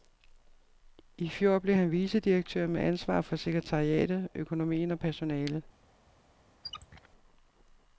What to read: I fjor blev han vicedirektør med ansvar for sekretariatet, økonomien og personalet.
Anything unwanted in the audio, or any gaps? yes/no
yes